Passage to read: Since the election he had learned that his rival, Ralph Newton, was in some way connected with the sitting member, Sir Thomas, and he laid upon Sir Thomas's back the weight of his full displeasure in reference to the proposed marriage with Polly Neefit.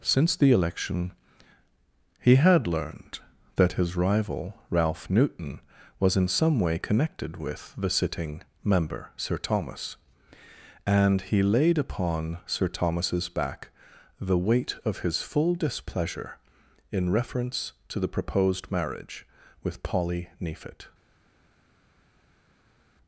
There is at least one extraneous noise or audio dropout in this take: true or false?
false